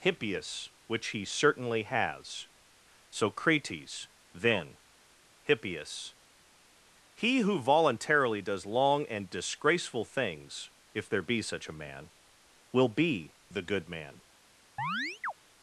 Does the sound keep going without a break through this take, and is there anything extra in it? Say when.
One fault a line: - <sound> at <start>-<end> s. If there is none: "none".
- chirp at 14.8-15.3 s